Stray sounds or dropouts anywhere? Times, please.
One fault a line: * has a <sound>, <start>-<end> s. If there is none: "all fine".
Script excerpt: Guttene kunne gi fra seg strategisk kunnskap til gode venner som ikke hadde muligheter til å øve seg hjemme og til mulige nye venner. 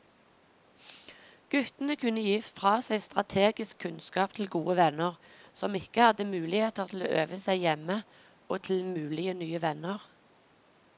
all fine